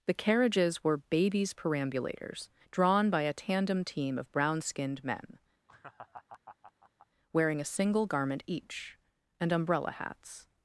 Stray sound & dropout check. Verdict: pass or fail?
fail